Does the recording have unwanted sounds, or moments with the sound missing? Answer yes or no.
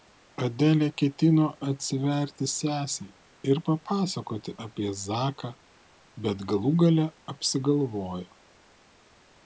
no